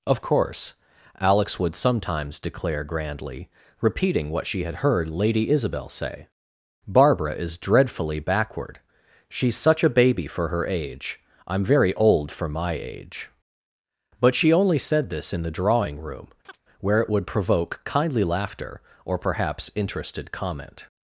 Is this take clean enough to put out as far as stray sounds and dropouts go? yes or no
no